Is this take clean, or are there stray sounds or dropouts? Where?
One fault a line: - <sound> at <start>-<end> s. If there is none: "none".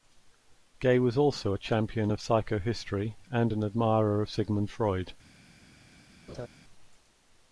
- laugh at 6.3-6.5 s